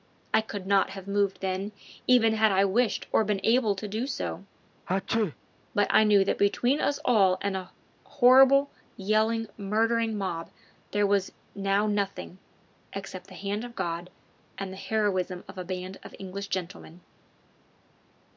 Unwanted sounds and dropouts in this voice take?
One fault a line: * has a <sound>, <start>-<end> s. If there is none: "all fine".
* has a sneeze, 4.9-5.4 s